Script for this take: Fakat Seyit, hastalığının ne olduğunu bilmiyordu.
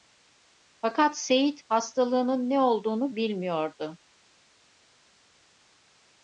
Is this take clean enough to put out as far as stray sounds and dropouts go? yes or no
yes